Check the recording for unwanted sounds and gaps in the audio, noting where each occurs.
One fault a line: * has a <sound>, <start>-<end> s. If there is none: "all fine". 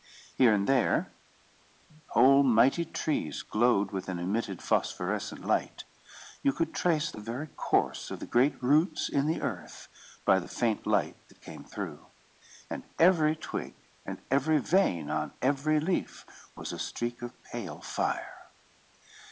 all fine